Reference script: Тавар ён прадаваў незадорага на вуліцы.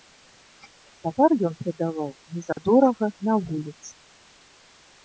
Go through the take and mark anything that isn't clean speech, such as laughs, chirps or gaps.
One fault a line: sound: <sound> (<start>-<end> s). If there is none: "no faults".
sound: dropout (2.5-2.6 s)